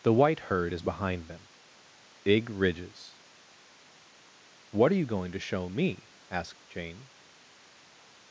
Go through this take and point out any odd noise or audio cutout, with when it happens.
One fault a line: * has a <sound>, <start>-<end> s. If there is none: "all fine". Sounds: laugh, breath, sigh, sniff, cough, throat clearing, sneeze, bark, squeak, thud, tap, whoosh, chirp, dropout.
all fine